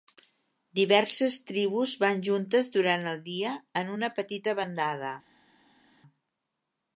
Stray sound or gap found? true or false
false